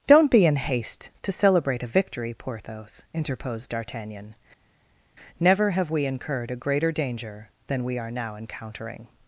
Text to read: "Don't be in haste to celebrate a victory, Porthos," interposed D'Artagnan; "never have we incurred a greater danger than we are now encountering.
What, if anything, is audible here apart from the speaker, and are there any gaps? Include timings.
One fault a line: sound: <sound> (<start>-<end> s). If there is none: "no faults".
no faults